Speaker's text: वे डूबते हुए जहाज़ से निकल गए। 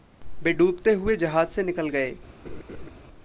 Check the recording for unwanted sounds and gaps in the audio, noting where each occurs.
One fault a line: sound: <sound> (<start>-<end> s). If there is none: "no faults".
sound: laugh (2.4-2.9 s)